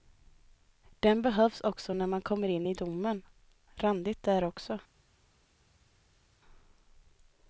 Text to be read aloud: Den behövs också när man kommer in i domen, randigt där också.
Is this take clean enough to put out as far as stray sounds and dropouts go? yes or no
yes